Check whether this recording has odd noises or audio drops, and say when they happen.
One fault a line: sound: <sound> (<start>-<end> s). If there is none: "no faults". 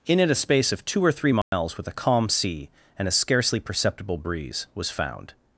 sound: dropout (1.4-1.5 s)